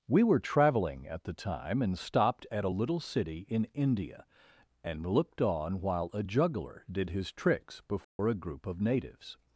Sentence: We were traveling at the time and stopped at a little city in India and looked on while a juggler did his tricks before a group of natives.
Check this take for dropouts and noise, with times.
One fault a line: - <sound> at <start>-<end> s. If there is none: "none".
- dropout at 8.0-8.2 s